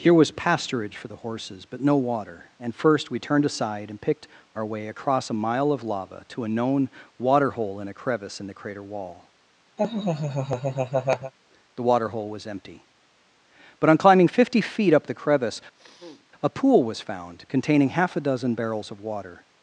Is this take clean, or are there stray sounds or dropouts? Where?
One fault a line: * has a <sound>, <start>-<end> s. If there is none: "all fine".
* has a laugh, 9.8-11.3 s
* has a sniff, 15.7-16.3 s